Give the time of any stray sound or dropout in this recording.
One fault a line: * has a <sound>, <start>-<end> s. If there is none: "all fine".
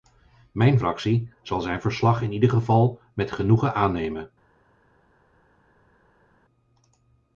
all fine